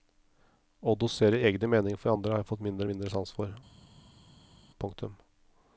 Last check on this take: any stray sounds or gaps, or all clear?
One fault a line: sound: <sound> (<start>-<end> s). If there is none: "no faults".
no faults